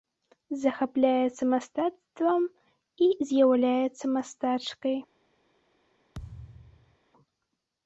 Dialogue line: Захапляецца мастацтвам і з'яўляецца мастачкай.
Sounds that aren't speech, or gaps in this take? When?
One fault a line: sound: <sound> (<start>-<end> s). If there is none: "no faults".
sound: thud (6.1-7.0 s)